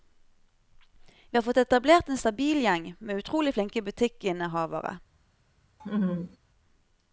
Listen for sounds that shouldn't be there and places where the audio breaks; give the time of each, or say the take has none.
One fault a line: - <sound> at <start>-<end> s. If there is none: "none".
- laugh at 5.8-6.4 s